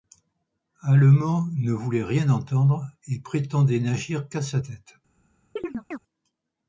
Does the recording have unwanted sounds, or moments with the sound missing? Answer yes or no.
yes